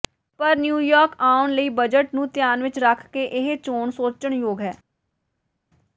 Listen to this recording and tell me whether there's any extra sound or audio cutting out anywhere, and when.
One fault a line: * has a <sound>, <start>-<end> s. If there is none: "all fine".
all fine